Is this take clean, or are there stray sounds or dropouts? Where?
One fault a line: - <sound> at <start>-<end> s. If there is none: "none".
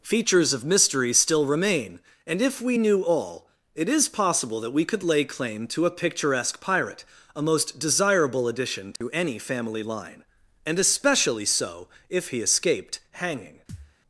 - dropout at 9.0-9.0 s
- thud at 13.7-14.0 s